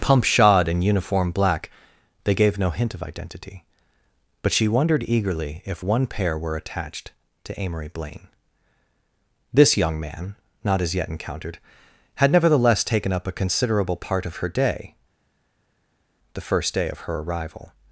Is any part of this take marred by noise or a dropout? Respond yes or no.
no